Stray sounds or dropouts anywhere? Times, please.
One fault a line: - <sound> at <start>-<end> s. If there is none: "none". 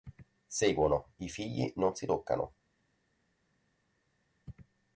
none